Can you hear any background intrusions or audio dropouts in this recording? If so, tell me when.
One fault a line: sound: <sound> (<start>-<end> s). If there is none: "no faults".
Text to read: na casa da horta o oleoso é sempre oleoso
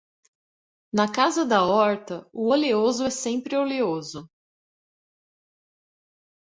no faults